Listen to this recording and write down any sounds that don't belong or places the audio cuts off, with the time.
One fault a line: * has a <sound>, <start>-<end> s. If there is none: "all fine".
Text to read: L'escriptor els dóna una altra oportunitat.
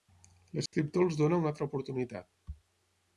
* has a dropout, 0.7-0.7 s